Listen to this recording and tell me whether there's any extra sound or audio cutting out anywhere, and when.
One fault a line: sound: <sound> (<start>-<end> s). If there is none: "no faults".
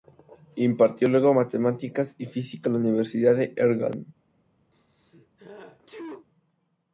sound: sneeze (4.7-6.3 s)